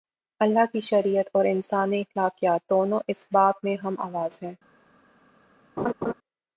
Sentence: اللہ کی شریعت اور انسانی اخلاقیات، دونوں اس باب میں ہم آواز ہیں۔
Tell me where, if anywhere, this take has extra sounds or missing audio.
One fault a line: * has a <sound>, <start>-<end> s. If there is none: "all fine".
* has a laugh, 5.8-6.1 s